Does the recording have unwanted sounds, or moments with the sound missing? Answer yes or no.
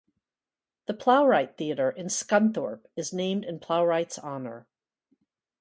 no